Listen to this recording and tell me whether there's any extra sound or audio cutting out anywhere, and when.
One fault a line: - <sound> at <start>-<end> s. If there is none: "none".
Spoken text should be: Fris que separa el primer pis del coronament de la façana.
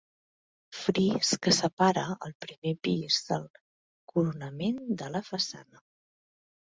none